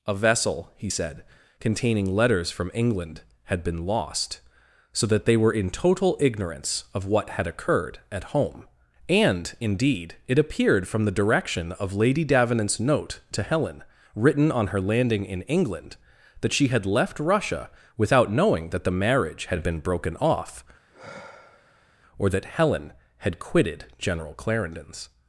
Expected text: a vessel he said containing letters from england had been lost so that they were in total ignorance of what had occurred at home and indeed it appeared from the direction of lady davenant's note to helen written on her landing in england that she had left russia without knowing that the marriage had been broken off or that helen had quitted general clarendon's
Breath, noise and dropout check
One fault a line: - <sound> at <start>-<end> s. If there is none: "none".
- sigh at 20.9-22.0 s